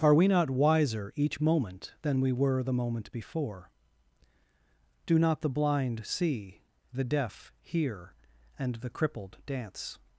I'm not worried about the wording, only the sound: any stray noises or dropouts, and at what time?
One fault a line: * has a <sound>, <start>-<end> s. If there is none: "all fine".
all fine